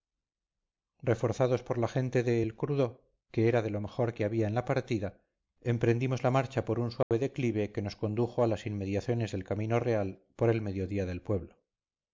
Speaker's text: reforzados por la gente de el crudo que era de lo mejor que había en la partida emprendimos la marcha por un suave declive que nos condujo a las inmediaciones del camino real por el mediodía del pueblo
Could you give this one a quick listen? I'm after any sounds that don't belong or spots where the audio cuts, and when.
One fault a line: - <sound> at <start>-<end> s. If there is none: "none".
- dropout at 7.0-7.1 s